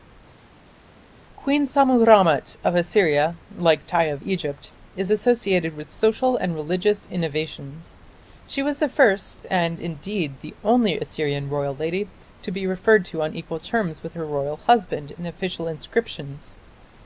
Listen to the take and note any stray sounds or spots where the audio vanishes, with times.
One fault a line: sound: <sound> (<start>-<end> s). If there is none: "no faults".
no faults